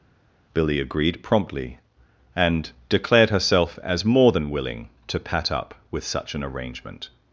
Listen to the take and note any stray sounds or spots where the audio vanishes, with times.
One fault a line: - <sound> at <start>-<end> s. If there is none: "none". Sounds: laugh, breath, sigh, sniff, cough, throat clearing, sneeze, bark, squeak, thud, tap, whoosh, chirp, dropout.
none